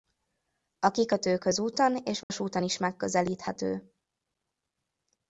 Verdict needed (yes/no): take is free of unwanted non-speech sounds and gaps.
no